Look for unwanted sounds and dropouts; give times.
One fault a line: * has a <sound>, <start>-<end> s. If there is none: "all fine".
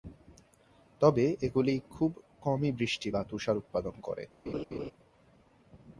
* has a laugh, 4.5-4.9 s